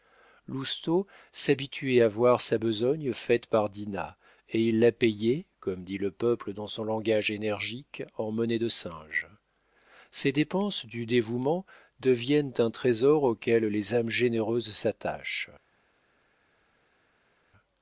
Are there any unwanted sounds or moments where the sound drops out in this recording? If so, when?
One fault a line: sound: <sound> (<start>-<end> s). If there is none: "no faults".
no faults